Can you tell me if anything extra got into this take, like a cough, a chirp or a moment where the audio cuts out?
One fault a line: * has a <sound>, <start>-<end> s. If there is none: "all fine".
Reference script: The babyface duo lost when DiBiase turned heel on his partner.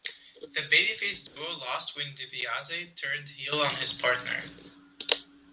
* has a dropout, 1.3-1.4 s